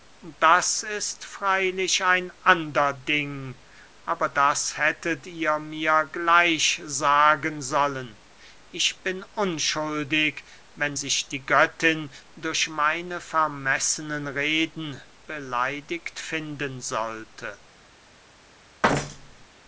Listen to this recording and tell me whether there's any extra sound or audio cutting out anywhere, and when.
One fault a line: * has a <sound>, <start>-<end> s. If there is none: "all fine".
* has a thud, 18.8-19.5 s